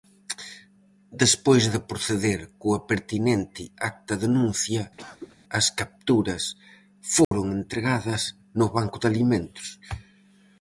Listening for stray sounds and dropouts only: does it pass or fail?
fail